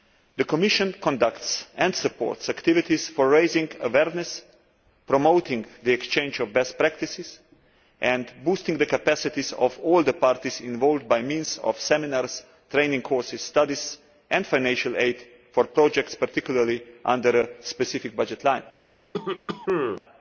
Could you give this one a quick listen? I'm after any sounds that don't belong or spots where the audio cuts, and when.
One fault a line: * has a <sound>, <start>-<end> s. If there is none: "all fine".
* has a cough, 19.1-20.0 s